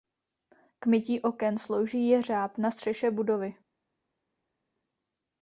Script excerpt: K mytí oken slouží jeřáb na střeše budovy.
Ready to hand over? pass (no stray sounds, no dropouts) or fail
pass